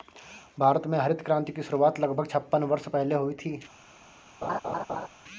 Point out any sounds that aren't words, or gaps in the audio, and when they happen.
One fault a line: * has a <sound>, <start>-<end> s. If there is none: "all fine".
* has a laugh, 4.4-5.1 s